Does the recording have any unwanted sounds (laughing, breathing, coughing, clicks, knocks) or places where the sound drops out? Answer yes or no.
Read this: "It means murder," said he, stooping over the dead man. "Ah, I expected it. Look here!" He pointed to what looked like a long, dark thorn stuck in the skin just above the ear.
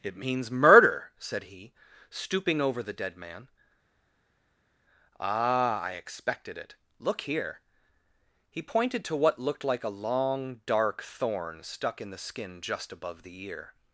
no